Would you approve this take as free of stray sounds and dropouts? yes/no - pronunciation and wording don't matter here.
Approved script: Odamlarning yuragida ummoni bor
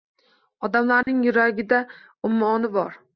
no